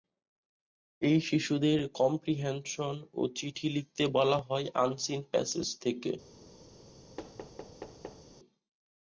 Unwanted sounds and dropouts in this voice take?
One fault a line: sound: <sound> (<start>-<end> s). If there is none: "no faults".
sound: thud (7.2-8.3 s)